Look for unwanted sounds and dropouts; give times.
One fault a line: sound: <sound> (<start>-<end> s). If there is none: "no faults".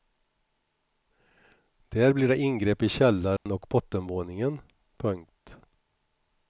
sound: dropout (3.4-3.5 s)